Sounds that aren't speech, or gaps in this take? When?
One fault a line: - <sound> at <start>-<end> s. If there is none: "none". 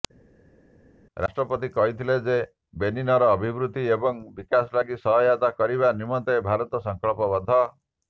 none